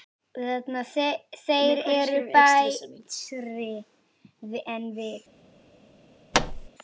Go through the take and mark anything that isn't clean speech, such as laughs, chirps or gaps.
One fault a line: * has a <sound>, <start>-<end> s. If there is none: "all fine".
* has a thud, 6.3-6.7 s